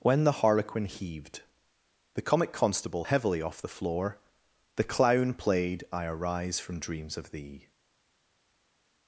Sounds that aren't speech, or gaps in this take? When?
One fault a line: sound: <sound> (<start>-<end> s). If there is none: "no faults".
no faults